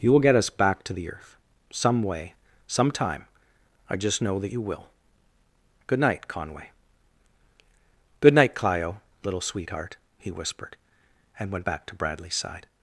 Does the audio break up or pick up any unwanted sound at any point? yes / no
no